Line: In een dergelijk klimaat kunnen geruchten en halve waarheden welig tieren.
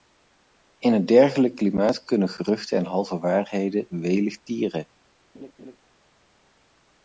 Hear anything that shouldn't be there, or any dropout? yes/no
yes